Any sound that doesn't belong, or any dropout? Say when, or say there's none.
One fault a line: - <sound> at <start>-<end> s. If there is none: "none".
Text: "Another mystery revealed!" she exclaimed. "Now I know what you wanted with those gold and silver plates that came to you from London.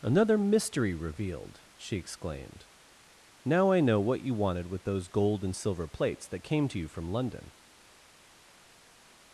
none